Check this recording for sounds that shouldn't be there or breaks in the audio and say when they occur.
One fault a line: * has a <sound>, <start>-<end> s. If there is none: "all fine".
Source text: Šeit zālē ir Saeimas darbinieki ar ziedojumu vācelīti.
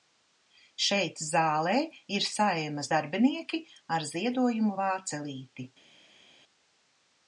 all fine